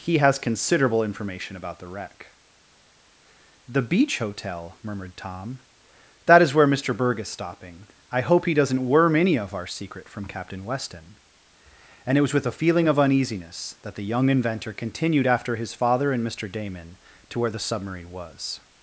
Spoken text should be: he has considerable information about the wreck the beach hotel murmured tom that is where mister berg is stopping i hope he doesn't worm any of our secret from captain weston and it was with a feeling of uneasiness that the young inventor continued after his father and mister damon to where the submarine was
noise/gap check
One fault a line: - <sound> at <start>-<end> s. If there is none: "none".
none